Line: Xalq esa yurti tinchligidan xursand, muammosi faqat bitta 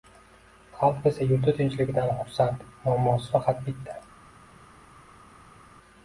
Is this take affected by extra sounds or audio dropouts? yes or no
no